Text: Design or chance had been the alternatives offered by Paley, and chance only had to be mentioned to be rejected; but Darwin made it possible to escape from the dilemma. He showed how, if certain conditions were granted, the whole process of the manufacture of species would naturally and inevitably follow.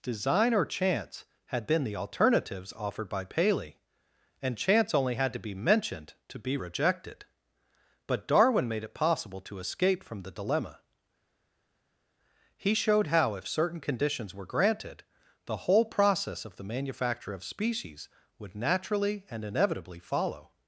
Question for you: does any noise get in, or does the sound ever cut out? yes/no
no